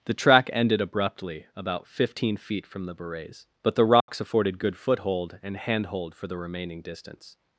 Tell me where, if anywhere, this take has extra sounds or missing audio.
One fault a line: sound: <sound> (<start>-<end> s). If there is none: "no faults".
sound: dropout (4.0-4.1 s)